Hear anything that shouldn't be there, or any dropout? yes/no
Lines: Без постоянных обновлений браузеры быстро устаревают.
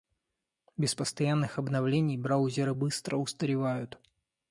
no